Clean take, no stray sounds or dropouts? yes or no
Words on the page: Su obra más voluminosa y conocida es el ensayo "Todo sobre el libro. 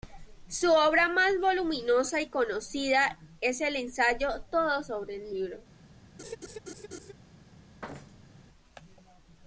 no